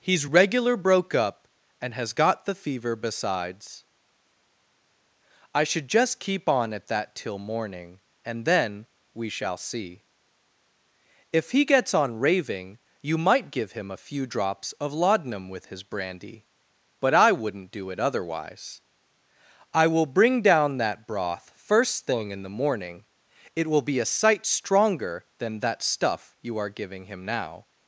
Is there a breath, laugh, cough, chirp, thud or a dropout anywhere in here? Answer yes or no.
no